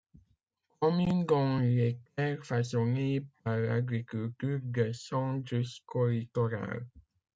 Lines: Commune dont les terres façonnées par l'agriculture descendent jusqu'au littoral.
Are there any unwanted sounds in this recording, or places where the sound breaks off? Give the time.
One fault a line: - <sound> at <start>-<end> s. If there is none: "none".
none